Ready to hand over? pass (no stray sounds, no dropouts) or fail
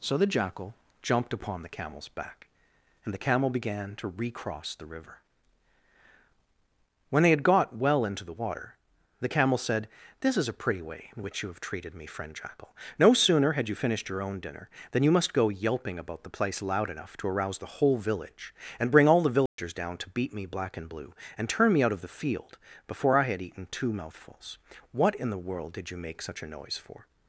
fail